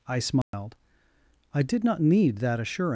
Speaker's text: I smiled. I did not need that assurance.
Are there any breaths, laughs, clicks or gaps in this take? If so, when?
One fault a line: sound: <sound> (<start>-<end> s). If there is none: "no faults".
sound: dropout (0.4-0.5 s)